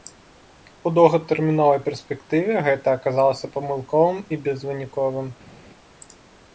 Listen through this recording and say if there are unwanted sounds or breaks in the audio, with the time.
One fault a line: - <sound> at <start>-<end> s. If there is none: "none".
none